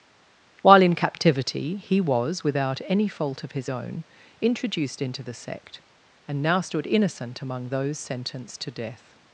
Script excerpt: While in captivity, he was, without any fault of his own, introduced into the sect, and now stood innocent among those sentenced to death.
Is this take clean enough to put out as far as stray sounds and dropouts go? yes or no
yes